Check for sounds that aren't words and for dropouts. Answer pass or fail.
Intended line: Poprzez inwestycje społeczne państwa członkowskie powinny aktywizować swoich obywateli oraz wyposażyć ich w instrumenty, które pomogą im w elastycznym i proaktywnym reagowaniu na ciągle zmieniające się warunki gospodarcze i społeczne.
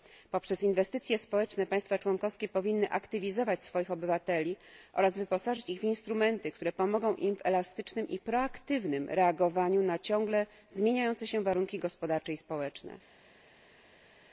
pass